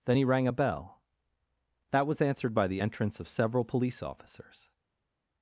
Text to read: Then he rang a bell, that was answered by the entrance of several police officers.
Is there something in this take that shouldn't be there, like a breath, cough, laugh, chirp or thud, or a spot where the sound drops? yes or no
no